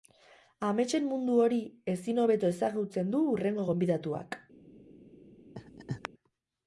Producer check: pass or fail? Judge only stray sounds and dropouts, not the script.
fail